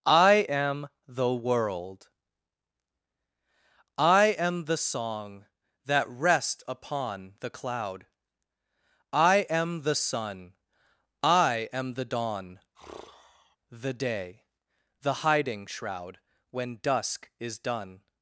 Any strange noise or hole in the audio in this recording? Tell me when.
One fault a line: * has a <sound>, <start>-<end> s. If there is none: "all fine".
* has a sigh, 12.7-13.6 s